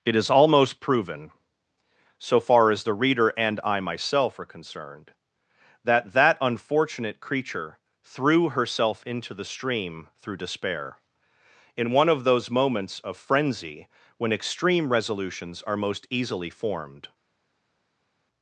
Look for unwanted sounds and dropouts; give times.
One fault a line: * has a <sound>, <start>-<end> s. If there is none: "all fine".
all fine